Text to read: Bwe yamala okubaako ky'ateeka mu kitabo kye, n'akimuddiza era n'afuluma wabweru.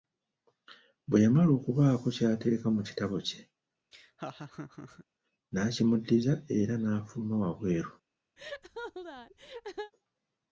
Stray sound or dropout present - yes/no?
yes